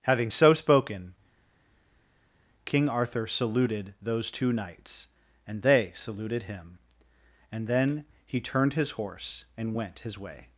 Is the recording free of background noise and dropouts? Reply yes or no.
yes